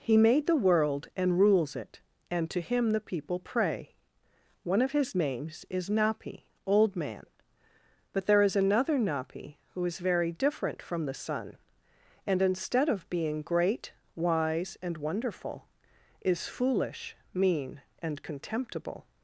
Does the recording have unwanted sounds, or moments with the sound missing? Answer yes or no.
no